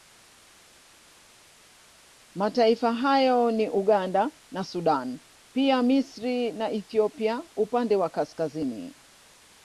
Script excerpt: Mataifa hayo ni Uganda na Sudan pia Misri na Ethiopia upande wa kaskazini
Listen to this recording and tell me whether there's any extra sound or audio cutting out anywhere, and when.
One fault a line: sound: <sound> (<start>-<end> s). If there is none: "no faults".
no faults